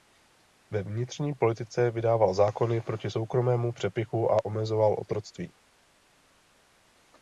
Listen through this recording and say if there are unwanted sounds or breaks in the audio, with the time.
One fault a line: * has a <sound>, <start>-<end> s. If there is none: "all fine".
all fine